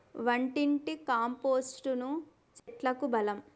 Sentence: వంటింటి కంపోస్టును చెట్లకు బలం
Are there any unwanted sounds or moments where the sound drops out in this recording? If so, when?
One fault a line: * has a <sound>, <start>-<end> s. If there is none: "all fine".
* has a dropout, 2.6-2.7 s